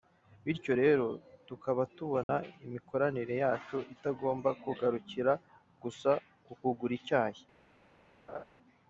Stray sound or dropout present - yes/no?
yes